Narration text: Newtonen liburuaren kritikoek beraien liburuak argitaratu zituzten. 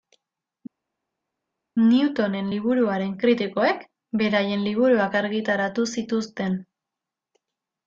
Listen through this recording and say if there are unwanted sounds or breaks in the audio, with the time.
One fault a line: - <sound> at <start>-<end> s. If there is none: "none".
none